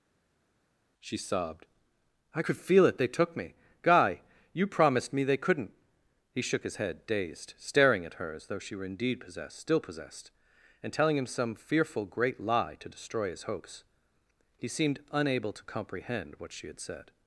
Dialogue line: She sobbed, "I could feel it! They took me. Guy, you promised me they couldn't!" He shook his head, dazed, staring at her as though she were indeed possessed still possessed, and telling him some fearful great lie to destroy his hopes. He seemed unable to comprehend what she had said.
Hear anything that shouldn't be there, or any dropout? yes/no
no